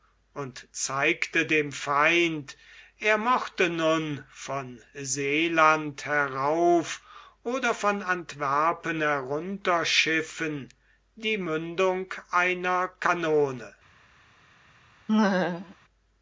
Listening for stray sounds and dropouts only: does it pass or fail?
fail